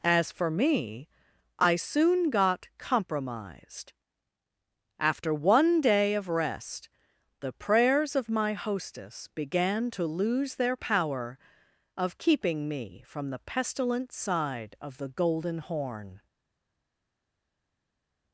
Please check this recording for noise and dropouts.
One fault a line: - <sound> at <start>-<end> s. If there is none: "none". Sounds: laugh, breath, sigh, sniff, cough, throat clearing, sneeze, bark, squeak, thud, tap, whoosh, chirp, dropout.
none